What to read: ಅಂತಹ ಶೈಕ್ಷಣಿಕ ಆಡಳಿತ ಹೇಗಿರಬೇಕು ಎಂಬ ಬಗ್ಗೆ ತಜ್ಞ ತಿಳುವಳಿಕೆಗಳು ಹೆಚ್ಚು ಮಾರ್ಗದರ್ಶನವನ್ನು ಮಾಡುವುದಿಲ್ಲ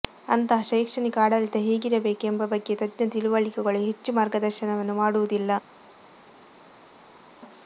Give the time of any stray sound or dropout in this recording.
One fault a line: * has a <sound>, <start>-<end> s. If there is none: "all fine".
all fine